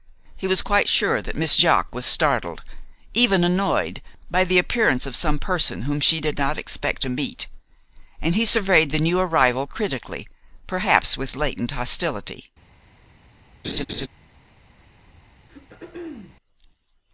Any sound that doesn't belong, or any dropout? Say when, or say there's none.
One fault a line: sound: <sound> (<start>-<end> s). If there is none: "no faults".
sound: laugh (13.6-14.1 s)
sound: throat clearing (15.5-16.4 s)